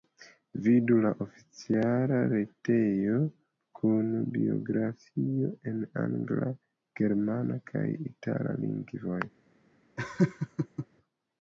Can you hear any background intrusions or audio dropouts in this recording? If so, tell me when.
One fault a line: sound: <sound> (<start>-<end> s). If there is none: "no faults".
sound: laugh (10.0-10.9 s)